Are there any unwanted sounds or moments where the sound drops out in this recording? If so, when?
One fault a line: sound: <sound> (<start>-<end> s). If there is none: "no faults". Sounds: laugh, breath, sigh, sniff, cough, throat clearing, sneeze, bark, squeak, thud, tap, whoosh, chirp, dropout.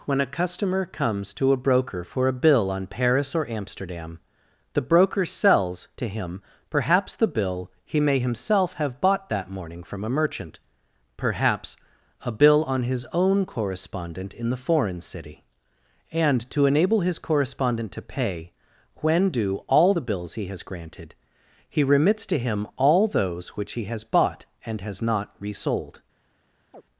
sound: chirp (26.7-26.8 s)